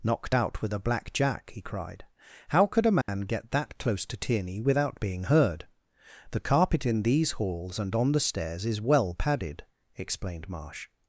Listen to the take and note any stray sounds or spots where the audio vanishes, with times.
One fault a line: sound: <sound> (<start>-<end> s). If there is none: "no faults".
sound: dropout (3.0-3.1 s)